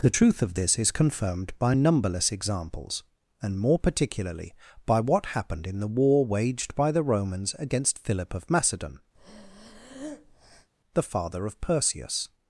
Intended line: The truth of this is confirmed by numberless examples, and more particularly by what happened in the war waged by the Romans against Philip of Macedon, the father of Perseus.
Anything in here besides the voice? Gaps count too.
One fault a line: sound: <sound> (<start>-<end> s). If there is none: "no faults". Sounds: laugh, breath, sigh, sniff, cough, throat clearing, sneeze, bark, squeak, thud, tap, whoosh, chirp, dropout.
sound: breath (9.1-10.7 s)